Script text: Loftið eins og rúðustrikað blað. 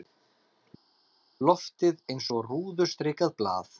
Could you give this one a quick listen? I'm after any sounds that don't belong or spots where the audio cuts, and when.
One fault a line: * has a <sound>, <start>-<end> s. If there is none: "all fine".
all fine